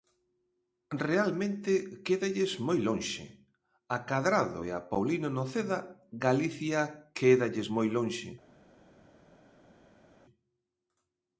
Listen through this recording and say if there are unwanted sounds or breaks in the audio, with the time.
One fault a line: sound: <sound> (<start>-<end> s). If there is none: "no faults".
no faults